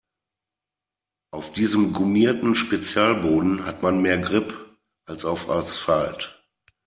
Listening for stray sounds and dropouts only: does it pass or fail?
pass